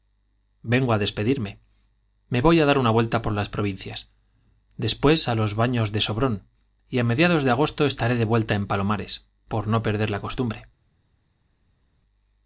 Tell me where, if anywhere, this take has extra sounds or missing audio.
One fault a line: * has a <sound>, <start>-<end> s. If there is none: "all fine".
all fine